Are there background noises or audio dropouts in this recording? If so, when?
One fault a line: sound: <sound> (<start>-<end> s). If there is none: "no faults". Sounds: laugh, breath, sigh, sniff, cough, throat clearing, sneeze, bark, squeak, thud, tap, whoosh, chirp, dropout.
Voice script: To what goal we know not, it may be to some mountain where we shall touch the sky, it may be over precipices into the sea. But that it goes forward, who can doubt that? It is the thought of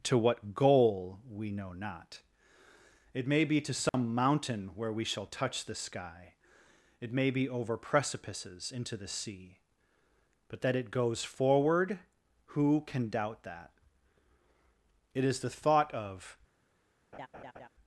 sound: dropout (3.9-3.9 s)
sound: laugh (17.1-17.7 s)